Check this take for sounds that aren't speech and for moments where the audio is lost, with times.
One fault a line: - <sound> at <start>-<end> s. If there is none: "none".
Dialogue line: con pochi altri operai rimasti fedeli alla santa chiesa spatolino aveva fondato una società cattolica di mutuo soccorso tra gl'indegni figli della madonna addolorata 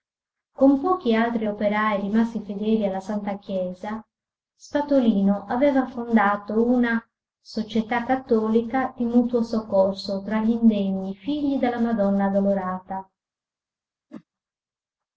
- whoosh at 14.1-14.2 s